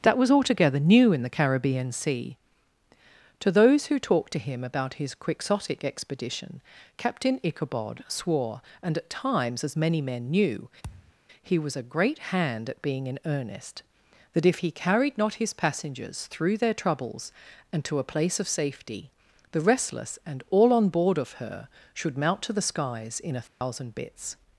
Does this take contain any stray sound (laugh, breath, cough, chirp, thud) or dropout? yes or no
yes